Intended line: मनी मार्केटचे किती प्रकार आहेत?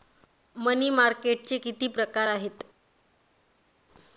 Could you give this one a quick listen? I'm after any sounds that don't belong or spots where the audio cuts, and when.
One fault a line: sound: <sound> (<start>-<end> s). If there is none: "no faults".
no faults